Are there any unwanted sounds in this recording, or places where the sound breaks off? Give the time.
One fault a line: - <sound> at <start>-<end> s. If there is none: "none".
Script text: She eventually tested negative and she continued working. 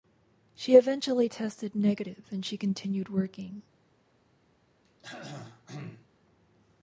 - throat clearing at 4.8-6.1 s